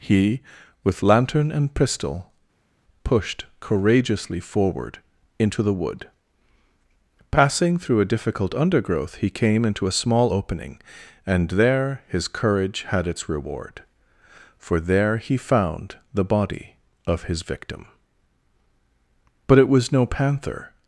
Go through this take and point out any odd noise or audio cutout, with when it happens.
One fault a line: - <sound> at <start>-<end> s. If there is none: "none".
none